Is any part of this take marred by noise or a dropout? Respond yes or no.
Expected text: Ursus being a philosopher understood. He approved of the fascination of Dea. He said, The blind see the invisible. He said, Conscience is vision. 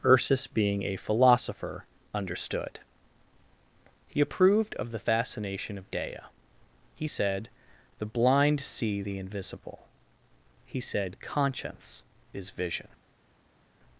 no